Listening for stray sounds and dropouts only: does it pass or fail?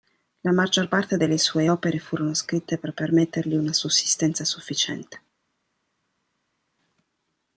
pass